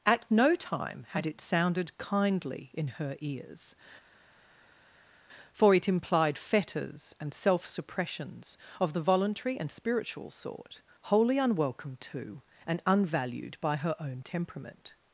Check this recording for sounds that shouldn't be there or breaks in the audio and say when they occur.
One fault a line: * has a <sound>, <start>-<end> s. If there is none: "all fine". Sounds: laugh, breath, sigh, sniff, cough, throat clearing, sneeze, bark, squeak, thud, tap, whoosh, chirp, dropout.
all fine